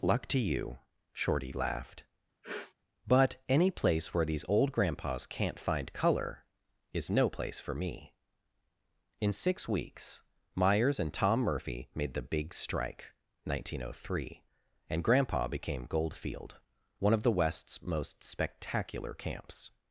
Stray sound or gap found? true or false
true